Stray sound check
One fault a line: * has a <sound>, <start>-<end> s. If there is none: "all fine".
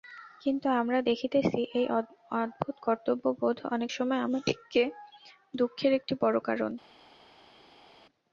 all fine